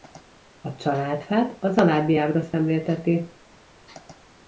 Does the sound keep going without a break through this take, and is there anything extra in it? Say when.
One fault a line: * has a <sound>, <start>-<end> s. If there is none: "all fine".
all fine